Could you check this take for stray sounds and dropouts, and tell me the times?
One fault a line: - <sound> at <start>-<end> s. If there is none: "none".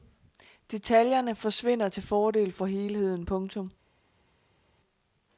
none